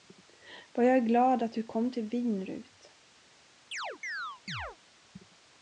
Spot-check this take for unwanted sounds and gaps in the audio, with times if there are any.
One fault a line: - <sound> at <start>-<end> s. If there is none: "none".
- chirp at 3.7-4.8 s